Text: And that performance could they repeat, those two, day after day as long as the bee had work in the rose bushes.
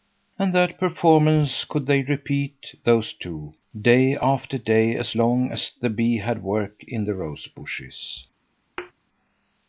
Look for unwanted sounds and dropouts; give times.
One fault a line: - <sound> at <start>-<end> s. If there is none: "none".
- thud at 8.8-8.9 s